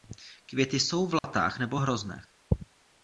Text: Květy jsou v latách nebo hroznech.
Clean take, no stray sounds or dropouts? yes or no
no